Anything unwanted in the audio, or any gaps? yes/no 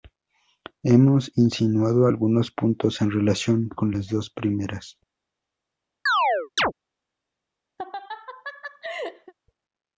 yes